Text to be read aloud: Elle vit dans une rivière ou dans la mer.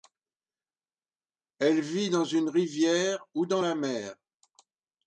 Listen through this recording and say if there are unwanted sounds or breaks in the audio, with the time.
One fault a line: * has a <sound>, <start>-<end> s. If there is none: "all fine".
all fine